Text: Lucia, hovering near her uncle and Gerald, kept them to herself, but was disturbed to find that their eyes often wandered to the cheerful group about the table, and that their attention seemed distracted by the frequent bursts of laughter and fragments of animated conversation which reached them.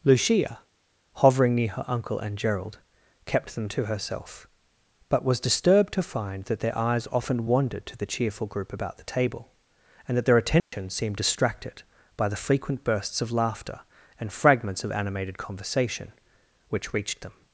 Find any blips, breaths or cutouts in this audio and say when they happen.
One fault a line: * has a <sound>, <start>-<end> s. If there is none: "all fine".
* has a dropout, 10.6-10.7 s